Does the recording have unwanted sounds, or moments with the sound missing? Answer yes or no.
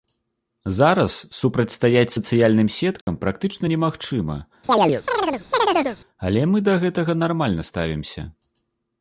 yes